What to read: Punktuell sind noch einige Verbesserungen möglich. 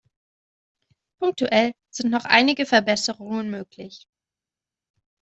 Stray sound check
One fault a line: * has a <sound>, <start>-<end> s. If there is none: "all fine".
all fine